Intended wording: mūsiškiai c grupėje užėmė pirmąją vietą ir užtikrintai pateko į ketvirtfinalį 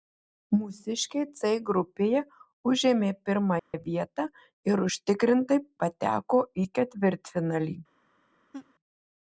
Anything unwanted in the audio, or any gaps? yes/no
yes